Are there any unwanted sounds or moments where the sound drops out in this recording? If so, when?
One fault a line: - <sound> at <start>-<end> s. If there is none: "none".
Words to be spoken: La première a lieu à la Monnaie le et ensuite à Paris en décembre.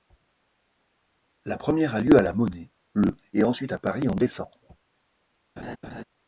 - laugh at 5.6-6.0 s